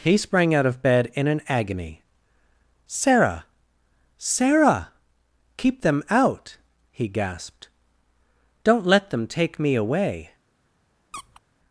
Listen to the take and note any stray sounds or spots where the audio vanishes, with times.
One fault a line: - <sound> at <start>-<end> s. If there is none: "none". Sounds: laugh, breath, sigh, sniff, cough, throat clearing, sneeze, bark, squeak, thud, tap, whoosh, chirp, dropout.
- squeak at 11.1-11.4 s